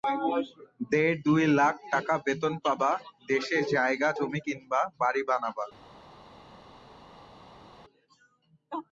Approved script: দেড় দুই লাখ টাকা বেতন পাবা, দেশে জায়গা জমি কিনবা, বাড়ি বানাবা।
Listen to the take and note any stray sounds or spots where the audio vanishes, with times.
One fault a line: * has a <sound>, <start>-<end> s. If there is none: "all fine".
all fine